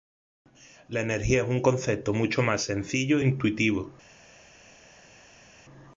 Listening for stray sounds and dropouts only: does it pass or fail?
pass